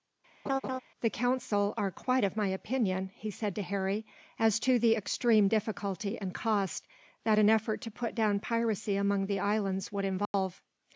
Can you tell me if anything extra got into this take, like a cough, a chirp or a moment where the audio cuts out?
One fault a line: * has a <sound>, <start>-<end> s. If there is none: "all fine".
* has a laugh, 0.4-0.8 s
* has a dropout, 10.3-10.3 s